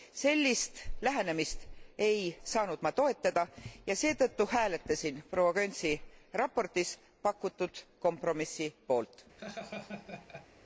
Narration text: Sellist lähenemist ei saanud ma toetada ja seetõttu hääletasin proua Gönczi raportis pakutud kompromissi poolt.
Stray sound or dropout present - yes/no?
yes